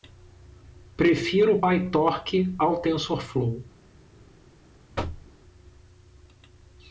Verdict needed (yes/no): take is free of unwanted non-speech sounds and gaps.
no